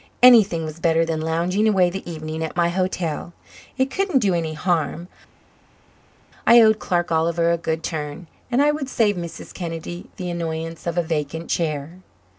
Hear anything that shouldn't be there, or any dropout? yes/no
no